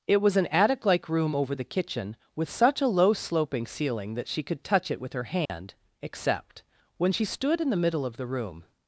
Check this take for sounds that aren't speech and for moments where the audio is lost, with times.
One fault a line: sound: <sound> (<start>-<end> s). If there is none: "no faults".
sound: dropout (5.5-5.5 s)